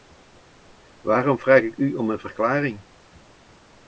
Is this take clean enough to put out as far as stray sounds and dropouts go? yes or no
yes